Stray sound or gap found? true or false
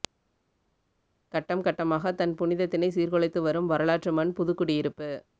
false